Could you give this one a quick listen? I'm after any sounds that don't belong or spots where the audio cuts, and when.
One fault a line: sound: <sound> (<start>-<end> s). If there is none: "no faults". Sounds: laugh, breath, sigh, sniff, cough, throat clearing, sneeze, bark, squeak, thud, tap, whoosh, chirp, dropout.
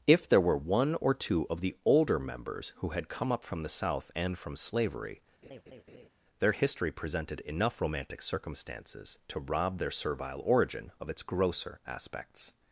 sound: laugh (5.4-6.1 s)